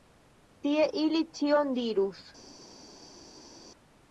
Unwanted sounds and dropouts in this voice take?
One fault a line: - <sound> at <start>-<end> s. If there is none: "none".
none